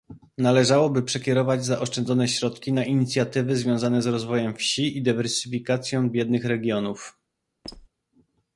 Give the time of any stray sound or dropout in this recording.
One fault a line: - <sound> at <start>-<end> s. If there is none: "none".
- squeak at 7.6-7.9 s